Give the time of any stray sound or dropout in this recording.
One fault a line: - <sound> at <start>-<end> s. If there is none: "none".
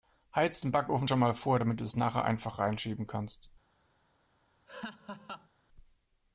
- laugh at 4.7-5.5 s